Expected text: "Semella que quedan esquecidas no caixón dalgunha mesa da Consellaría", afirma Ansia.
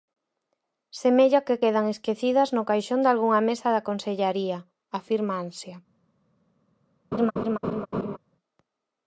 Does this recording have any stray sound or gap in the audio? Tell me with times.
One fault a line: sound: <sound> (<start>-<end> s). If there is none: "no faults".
sound: laugh (7.1-8.2 s)